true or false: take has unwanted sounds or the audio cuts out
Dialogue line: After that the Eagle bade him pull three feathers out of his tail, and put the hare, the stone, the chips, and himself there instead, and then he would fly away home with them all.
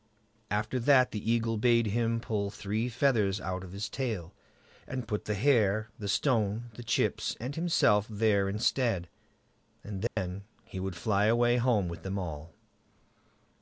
true